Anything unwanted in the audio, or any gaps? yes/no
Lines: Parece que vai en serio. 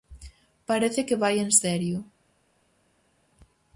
no